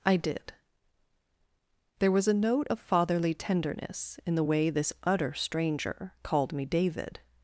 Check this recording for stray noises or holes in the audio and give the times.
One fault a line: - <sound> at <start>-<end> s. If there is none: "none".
none